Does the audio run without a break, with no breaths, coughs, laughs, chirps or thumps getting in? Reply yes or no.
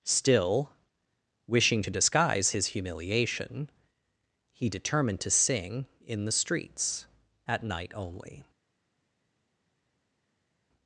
yes